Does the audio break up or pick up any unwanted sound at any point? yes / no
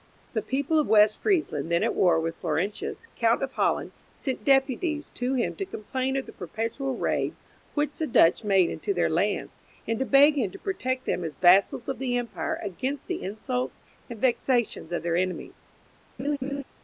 yes